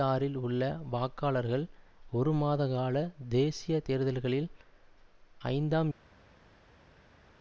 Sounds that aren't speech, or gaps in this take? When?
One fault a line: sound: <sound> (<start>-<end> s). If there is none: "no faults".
no faults